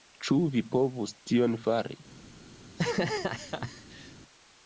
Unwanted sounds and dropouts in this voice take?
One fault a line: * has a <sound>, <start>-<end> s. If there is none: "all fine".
* has a laugh, 2.6-4.2 s